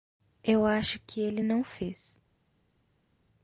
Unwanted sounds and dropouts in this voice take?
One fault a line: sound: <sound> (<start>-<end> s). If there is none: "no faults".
no faults